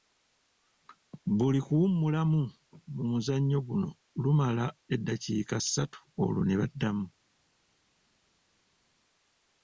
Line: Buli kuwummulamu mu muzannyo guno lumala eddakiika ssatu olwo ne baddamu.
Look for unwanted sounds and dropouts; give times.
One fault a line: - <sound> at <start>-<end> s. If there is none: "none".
none